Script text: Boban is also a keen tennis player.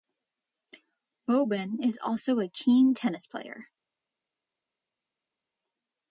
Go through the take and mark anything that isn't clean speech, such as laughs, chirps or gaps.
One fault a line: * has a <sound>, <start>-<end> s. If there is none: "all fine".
all fine